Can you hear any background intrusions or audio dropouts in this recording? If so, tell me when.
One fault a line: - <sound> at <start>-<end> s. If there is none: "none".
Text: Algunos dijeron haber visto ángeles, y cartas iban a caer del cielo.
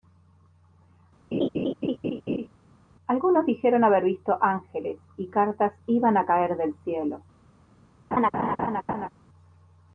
- laugh at 1.3-2.5 s
- laugh at 8.1-9.1 s